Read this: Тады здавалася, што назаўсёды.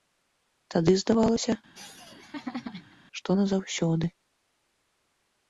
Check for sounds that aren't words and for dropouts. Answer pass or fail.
fail